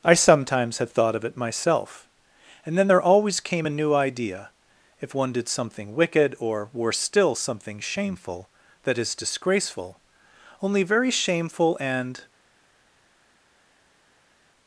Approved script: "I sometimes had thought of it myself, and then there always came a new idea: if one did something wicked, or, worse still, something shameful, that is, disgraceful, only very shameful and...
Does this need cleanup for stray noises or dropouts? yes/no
no